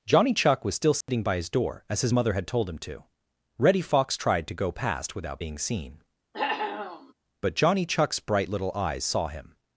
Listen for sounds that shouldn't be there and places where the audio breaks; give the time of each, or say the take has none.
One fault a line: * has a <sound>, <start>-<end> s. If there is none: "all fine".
* has a dropout, 1.0-1.1 s
* has a cough, 6.3-7.1 s